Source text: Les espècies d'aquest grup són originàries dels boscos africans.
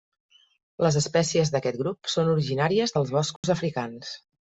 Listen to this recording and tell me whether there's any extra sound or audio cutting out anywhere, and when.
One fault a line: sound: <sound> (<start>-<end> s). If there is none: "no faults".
sound: dropout (3.4-3.4 s)